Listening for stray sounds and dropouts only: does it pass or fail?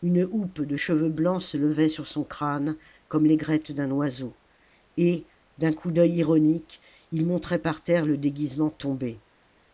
pass